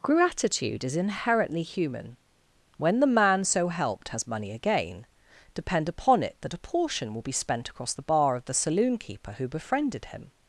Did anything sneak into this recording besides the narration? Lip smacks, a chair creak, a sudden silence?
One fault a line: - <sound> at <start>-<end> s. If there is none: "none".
none